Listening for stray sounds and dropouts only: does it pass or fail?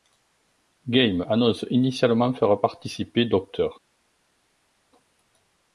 pass